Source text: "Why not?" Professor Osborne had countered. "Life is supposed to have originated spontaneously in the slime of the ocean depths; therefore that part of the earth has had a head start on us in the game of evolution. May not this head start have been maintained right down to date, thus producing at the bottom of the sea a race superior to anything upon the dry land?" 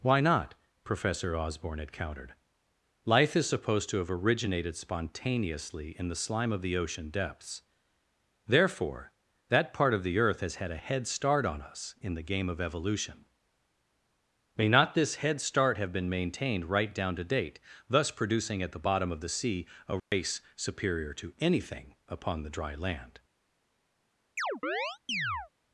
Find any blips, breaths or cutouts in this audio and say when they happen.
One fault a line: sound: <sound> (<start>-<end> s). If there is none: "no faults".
sound: dropout (20.0-20.1 s)
sound: chirp (24.4-25.5 s)